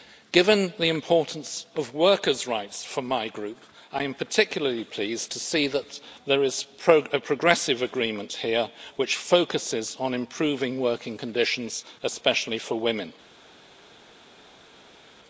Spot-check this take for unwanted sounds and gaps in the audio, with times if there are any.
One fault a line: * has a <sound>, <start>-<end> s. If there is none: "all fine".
all fine